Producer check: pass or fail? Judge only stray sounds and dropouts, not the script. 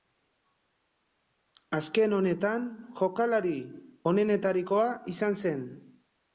pass